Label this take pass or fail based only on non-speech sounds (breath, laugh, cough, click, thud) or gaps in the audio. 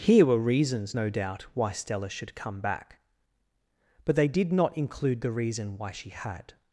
pass